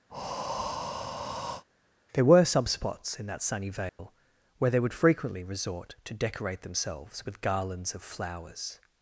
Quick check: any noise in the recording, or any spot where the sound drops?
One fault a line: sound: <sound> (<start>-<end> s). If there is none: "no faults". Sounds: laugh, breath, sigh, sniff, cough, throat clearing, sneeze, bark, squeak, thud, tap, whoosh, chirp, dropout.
sound: breath (0.1-1.6 s)
sound: dropout (3.9-4.0 s)